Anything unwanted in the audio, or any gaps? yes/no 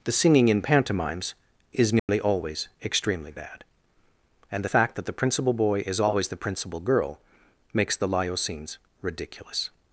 yes